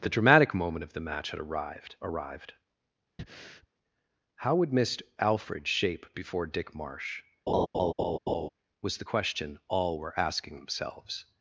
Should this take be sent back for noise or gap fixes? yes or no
yes